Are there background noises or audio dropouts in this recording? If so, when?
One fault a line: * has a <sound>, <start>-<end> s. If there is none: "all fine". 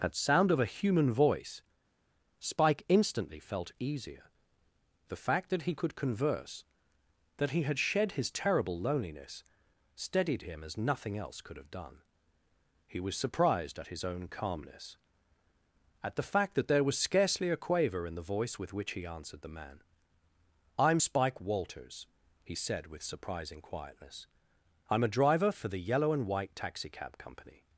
all fine